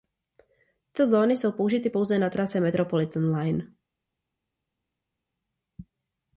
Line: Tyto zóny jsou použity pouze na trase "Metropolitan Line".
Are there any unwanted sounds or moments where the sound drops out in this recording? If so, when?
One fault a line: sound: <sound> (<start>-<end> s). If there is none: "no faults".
no faults